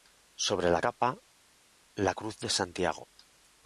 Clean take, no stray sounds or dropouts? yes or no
yes